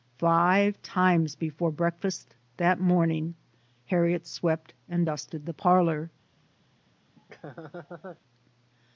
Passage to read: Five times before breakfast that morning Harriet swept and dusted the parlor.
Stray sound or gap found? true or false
true